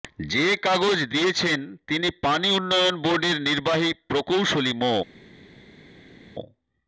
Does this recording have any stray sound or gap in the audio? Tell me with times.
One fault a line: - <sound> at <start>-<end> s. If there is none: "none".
none